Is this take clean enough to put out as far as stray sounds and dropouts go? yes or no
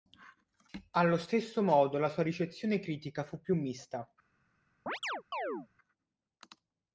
no